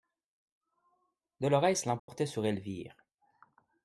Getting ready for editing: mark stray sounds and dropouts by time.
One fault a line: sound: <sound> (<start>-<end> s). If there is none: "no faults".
sound: dropout (2.0-2.1 s)